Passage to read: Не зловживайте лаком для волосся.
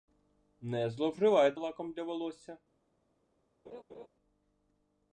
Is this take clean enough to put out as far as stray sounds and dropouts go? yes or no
no